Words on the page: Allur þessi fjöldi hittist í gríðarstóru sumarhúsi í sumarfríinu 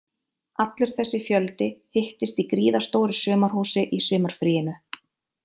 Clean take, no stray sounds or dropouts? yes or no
yes